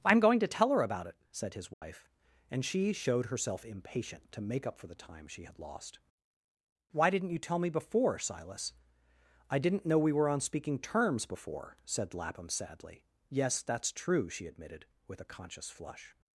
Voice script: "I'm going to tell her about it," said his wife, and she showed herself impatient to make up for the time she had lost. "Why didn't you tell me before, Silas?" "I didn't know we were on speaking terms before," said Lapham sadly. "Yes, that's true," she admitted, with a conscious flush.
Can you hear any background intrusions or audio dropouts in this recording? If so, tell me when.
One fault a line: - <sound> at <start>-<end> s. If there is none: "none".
- dropout at 1.7-1.8 s